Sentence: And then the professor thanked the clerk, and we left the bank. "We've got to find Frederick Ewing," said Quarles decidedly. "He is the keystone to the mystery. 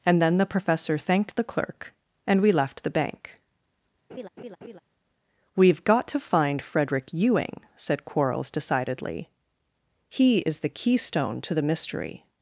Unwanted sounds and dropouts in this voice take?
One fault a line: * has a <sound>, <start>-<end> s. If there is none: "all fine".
* has a laugh, 4.1-4.8 s